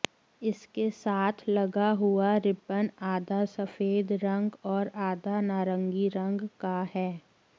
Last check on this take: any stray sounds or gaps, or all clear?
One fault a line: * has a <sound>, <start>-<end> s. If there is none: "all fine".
all fine